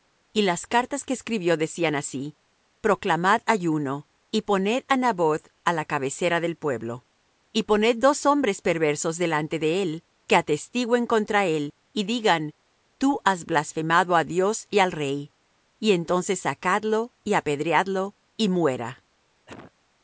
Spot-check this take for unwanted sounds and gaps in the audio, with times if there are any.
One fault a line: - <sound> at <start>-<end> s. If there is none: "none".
- cough at 19.5-19.7 s